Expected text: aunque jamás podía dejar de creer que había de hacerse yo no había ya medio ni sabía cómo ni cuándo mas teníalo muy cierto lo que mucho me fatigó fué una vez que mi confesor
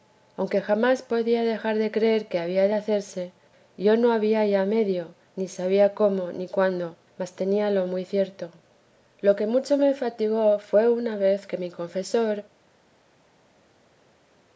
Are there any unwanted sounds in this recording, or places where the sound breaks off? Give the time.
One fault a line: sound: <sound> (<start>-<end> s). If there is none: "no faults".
no faults